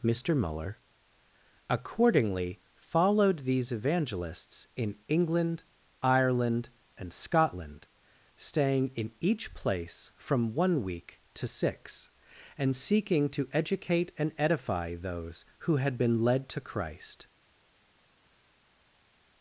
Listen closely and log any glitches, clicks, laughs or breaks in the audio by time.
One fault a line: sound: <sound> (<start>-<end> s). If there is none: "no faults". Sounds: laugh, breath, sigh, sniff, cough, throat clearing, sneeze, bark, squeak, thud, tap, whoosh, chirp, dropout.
no faults